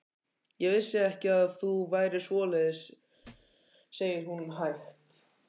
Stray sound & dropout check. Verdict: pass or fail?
fail